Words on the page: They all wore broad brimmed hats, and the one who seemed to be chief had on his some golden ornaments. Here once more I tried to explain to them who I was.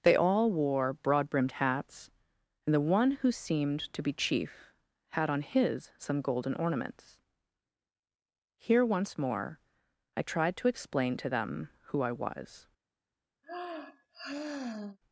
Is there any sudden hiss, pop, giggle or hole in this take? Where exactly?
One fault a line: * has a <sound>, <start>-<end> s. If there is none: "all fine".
* has a sigh, 13.4-15.0 s